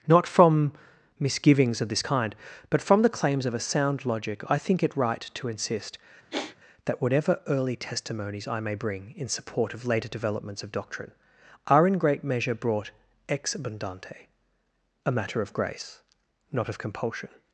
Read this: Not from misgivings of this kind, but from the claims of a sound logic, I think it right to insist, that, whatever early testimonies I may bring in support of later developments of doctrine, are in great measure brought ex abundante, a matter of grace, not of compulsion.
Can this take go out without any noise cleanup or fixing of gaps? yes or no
no